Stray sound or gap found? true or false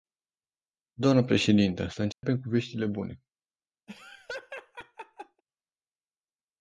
true